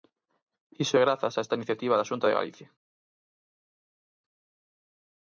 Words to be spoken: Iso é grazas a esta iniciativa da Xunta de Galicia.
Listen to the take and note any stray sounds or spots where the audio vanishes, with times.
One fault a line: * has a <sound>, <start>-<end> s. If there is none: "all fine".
all fine